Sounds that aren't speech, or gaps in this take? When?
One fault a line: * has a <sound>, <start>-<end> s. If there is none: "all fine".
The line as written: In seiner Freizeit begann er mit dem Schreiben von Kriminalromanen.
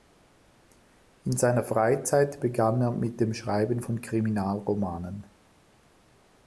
all fine